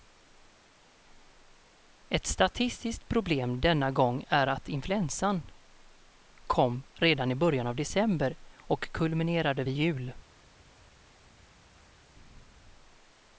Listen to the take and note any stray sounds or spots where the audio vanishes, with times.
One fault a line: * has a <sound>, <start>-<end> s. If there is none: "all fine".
all fine